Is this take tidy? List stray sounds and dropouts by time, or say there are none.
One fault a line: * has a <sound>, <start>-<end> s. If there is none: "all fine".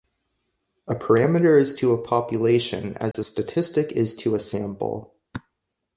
* has a dropout, 3.1-3.1 s